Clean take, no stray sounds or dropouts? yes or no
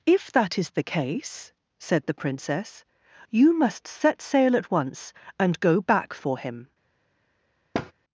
no